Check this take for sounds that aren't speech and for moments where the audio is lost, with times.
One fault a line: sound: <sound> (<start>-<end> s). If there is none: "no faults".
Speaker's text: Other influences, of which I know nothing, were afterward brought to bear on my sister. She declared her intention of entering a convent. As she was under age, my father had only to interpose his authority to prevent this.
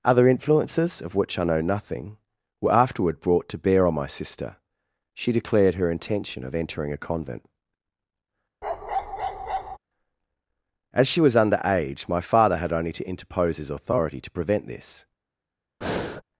sound: bark (8.6-9.8 s)
sound: breath (15.8-16.2 s)